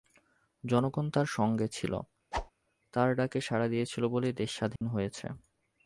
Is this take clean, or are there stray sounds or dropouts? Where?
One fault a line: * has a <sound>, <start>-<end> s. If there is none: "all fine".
* has a whoosh, 2.3-2.5 s
* has a dropout, 4.8-4.8 s